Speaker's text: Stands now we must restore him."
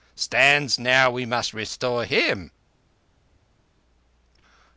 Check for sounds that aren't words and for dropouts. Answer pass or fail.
pass